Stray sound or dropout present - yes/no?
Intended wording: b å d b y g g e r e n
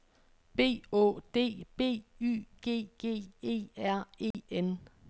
yes